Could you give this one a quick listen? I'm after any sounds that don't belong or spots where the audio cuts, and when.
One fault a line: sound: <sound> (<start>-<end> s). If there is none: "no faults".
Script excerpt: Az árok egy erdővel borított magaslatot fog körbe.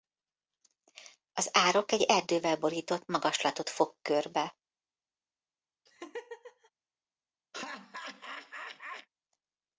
sound: laugh (5.9-6.7 s)
sound: laugh (7.5-9.1 s)